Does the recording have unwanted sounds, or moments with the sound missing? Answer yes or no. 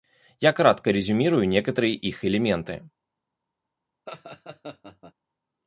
yes